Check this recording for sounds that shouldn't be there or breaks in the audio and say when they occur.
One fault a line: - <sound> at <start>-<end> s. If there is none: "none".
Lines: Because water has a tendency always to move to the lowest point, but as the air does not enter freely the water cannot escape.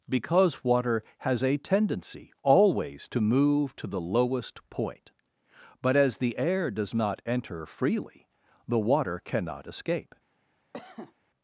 - cough at 10.7-11.1 s